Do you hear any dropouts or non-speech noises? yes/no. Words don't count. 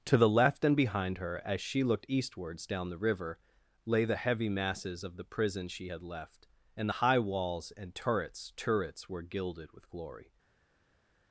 no